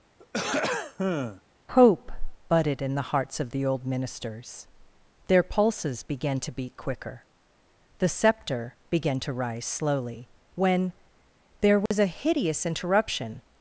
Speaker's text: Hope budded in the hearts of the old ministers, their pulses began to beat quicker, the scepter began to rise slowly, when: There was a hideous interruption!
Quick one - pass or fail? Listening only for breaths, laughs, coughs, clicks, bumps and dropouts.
fail